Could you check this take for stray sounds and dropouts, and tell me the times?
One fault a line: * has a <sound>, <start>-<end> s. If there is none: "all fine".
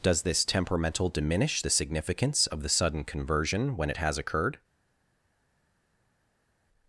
all fine